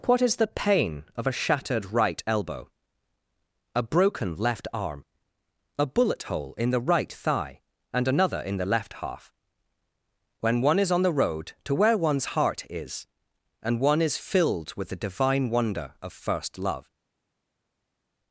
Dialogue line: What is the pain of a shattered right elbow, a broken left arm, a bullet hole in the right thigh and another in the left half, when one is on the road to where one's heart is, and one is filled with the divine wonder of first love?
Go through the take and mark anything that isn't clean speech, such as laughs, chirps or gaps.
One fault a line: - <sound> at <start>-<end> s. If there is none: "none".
none